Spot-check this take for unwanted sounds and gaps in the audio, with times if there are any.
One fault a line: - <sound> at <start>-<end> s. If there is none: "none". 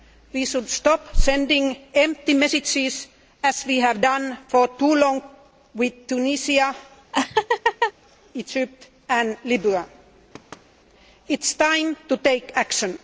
- laugh at 7.1-7.9 s
- thud at 10.3-10.7 s